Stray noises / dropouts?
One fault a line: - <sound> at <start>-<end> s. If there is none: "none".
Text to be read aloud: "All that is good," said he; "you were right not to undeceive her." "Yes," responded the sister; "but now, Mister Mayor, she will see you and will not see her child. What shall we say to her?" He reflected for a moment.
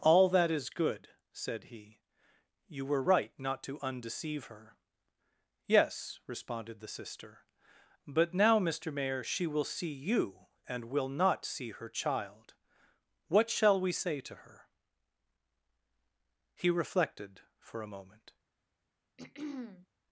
- throat clearing at 19.2-19.9 s